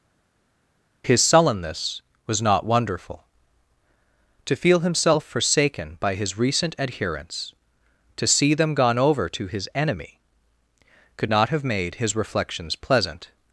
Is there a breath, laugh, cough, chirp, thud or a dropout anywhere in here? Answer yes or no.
no